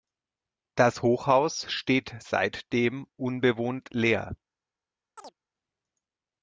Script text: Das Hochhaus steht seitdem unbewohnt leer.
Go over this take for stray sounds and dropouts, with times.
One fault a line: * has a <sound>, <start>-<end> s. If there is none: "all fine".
* has a chirp, 5.2-5.3 s